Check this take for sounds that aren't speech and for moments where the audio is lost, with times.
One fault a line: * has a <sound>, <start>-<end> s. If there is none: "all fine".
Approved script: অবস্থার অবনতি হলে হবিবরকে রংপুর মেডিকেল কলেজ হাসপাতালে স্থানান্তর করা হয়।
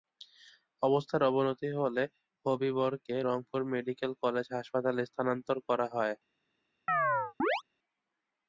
* has a chirp, 6.9-7.6 s